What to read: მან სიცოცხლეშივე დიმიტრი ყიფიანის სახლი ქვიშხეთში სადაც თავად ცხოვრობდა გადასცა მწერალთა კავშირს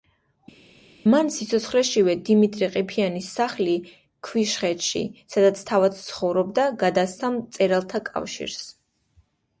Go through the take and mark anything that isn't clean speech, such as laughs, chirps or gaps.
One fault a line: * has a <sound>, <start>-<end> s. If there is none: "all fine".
all fine